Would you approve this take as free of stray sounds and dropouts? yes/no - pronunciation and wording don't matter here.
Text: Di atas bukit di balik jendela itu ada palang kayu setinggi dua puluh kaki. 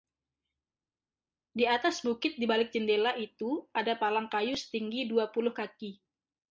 yes